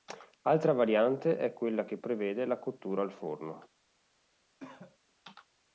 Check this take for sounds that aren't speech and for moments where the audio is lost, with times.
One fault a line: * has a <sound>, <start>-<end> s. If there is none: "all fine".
* has a cough, 4.6-5.0 s